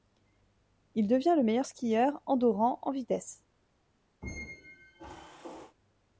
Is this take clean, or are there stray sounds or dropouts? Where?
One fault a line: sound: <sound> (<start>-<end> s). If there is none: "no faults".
sound: squeak (4.2-5.8 s)